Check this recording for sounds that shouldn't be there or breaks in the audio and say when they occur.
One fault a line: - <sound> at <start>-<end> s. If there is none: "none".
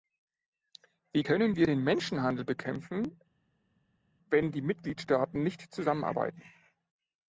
none